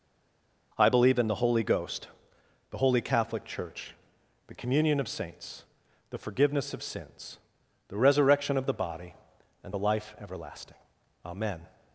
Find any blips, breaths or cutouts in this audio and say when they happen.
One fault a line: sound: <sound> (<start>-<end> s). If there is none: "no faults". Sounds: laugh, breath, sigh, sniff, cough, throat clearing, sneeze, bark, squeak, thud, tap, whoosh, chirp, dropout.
no faults